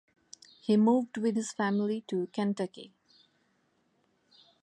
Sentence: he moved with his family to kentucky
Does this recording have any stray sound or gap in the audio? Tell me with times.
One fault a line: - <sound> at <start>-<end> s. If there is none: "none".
none